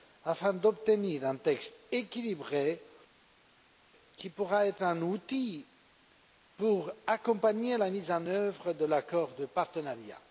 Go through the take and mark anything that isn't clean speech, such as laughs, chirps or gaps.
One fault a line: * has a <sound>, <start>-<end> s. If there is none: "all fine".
all fine